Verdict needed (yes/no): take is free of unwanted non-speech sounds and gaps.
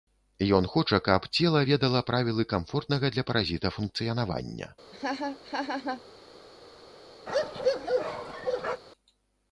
no